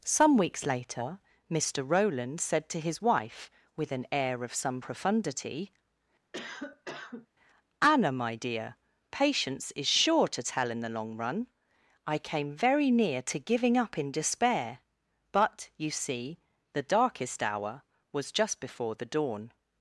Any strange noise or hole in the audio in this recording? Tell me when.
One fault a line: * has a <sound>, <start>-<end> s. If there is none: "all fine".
* has a cough, 6.3-7.3 s